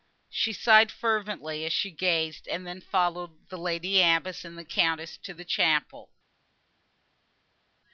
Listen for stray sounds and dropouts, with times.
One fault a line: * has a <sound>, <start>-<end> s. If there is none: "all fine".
all fine